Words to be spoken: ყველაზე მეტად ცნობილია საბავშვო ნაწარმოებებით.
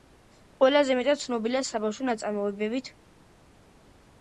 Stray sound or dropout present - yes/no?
no